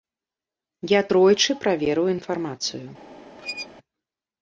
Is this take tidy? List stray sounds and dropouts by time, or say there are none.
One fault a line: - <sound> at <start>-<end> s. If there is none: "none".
- squeak at 3.4-3.7 s